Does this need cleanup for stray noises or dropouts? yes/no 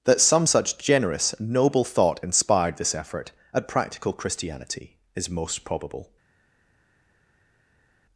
no